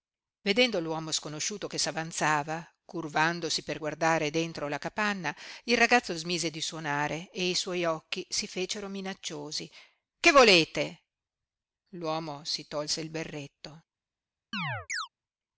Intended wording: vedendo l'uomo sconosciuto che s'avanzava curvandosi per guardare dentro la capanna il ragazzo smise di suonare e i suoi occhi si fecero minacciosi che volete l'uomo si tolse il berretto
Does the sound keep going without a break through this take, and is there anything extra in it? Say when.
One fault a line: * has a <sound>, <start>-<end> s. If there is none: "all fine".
* has a chirp, 14.5-15.1 s